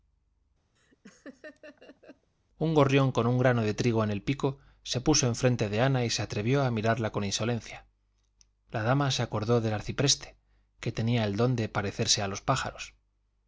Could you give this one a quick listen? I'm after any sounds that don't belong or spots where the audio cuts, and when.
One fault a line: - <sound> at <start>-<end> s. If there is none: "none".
- laugh at 0.8-2.3 s